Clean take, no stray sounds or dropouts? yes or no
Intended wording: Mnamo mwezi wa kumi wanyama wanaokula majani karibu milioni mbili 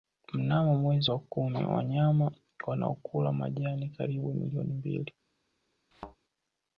no